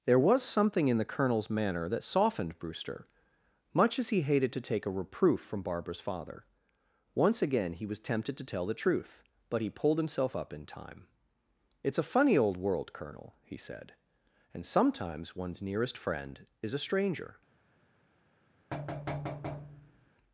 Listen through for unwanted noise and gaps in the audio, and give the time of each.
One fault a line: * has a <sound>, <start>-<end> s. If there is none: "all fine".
* has a thud, 18.7-20.1 s